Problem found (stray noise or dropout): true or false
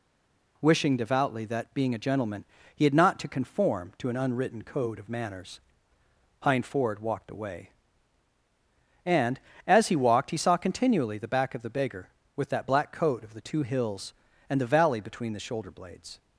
false